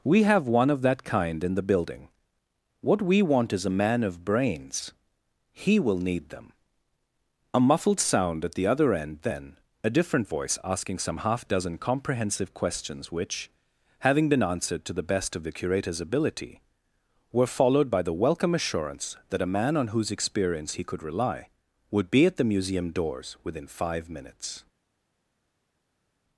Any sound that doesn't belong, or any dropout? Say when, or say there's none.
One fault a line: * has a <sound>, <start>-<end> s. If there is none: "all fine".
all fine